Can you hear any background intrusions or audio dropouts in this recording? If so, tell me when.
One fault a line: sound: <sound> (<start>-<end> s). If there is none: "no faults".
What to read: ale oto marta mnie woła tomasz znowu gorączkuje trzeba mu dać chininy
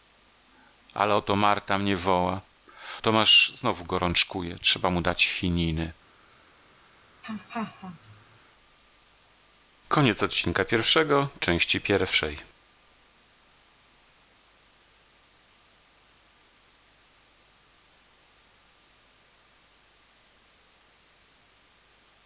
sound: laugh (7.2-8.4 s)